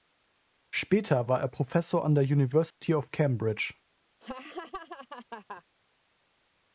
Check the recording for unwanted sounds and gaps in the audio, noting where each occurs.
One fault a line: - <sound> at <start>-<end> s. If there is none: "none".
- dropout at 2.7-2.8 s
- laugh at 4.2-5.6 s